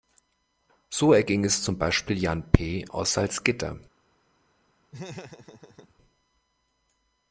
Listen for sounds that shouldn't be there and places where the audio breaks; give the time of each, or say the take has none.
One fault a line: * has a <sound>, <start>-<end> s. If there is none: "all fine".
* has a laugh, 4.9-5.9 s